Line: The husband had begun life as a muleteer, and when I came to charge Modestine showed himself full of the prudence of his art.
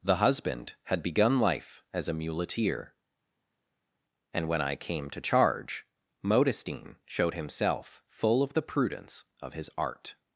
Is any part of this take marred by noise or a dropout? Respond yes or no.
no